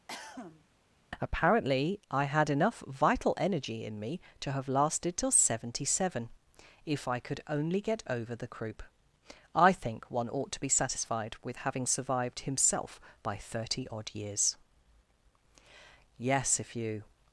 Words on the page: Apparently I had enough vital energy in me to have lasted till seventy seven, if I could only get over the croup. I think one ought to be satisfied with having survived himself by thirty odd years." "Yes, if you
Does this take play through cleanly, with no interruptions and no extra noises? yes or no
no